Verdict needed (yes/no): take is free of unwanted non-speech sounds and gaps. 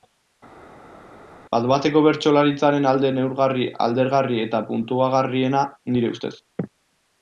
yes